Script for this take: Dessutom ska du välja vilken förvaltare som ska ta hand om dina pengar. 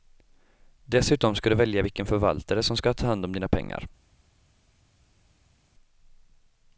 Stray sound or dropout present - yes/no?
no